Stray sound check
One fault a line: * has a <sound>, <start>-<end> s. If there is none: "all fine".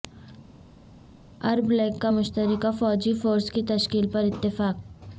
all fine